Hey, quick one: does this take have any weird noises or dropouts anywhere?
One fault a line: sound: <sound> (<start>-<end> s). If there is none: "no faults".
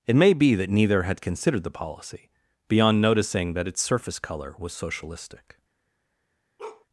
sound: bark (6.6-6.9 s)